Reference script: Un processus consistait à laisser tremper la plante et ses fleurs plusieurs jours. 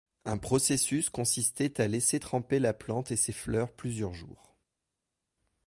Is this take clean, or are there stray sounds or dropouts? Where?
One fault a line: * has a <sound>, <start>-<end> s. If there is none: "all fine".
all fine